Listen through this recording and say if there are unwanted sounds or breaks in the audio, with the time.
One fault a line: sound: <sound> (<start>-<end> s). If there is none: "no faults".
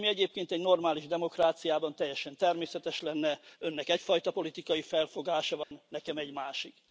sound: dropout (5.6-5.7 s)